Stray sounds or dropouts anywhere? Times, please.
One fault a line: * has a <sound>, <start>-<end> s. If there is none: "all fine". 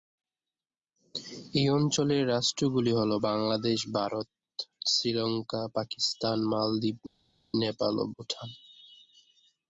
all fine